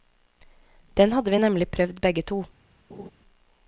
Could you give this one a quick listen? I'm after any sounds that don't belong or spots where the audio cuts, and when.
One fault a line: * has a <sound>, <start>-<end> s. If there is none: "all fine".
* has a laugh, 2.9-3.1 s